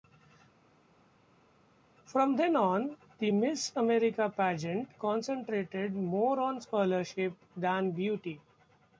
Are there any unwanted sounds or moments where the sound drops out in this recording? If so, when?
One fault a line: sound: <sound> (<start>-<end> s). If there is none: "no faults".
no faults